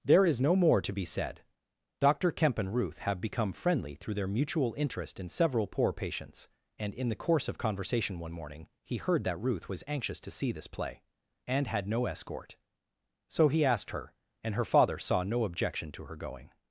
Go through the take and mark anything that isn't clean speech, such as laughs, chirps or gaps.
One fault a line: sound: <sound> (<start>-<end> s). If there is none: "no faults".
no faults